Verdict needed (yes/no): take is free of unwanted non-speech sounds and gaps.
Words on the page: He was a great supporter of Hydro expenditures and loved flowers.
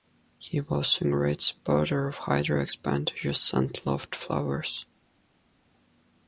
yes